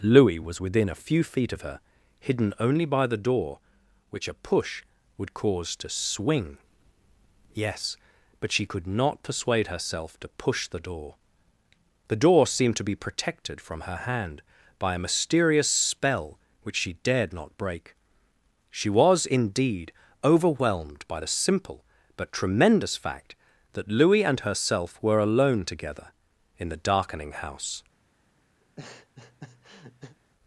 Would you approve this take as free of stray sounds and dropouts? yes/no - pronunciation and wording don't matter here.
no